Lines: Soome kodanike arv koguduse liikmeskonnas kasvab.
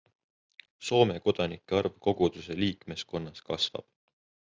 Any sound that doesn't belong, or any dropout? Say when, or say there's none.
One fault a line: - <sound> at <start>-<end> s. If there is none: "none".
none